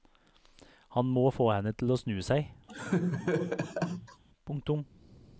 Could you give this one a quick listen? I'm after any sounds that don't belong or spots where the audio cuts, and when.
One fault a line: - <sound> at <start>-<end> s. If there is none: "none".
- laugh at 2.7-4.2 s